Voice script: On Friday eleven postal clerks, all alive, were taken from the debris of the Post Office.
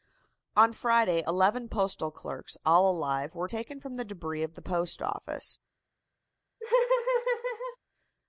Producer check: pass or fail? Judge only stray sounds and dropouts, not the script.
fail